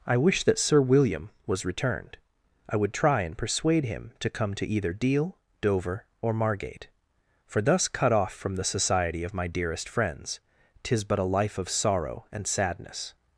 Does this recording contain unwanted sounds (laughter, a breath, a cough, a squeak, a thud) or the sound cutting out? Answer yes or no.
no